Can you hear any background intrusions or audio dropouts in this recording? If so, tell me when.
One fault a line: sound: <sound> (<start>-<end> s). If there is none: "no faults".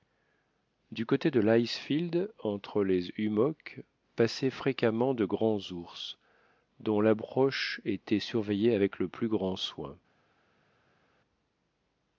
no faults